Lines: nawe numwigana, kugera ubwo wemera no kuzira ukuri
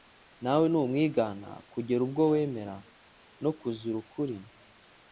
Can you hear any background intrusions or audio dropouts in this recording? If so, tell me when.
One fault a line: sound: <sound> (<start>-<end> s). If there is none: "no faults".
no faults